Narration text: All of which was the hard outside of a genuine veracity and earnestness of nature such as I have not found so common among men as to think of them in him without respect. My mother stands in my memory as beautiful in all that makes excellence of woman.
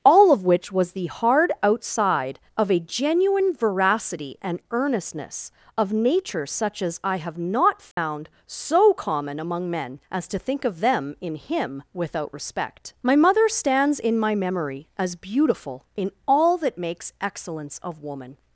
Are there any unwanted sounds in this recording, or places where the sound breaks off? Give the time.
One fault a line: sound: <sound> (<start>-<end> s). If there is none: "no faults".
sound: dropout (7.9-8.0 s)